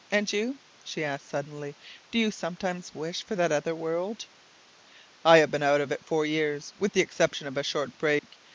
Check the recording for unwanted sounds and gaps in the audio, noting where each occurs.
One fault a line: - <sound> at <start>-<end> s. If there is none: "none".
- dropout at 8.2-8.2 s